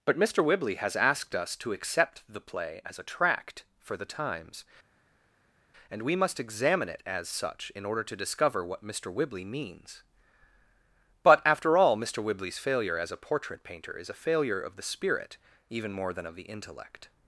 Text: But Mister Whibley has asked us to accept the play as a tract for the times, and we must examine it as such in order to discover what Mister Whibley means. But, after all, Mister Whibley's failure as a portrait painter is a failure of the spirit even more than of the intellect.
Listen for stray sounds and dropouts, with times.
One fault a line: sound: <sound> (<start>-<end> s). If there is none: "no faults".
no faults